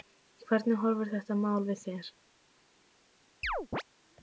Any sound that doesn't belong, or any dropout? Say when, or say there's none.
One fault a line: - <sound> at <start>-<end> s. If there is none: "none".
- chirp at 3.4-3.8 s